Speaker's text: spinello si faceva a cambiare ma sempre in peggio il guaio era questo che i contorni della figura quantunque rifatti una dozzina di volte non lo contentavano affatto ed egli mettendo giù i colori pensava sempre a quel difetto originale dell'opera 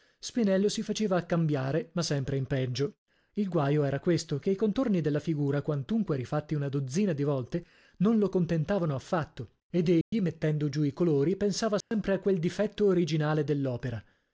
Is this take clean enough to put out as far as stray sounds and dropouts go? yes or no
no